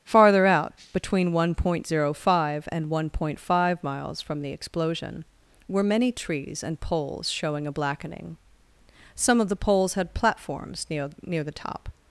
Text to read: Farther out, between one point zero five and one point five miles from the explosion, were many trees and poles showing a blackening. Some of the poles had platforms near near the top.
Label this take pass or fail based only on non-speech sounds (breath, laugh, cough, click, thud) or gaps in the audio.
pass